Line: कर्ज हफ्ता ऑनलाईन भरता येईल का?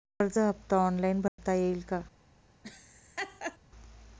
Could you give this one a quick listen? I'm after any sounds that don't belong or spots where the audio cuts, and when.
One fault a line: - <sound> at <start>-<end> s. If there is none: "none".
- dropout at 1.3-1.4 s
- laugh at 2.6-3.6 s